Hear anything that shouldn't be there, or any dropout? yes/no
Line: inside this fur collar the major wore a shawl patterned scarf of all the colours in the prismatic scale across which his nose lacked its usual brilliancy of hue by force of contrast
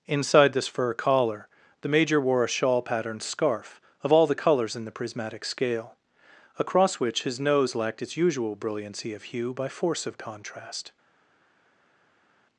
no